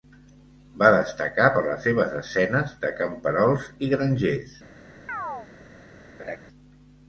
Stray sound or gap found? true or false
true